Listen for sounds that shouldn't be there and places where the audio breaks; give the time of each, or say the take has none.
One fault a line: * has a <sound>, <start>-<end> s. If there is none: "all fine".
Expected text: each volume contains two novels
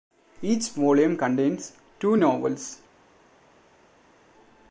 all fine